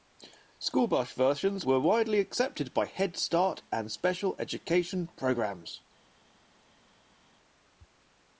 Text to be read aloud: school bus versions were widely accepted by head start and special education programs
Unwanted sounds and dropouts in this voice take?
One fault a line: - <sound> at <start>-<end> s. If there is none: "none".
none